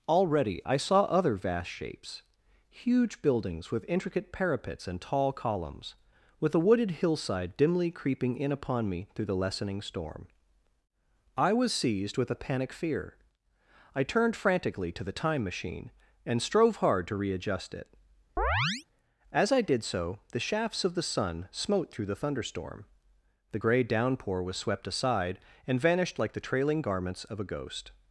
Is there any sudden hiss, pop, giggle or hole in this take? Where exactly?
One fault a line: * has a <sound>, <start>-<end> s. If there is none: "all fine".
* has a chirp, 18.4-18.8 s